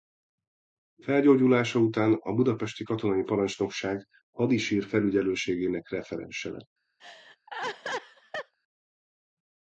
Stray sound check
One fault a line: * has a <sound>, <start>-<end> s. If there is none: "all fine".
* has a laugh, 7.0-8.5 s